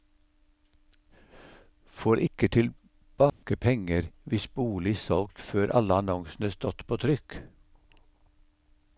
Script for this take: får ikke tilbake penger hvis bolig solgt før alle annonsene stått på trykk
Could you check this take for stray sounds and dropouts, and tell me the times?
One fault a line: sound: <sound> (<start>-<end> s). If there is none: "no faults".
sound: dropout (3.3-3.4 s)